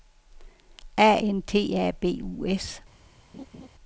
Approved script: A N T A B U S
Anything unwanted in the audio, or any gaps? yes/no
yes